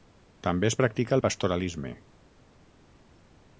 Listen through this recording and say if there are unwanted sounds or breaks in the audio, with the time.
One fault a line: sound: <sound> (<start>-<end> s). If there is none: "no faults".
no faults